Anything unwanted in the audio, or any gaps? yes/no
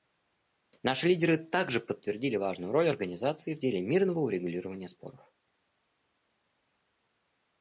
no